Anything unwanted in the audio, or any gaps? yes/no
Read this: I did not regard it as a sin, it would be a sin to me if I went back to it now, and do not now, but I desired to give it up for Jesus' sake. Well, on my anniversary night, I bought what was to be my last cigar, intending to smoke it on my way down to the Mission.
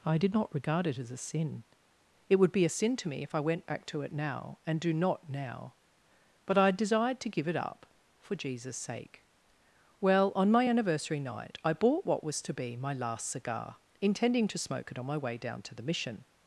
no